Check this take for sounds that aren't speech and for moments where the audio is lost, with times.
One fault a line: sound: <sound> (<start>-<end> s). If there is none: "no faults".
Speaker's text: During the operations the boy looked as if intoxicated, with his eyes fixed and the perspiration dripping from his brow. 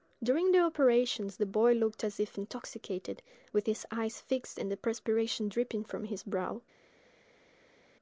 no faults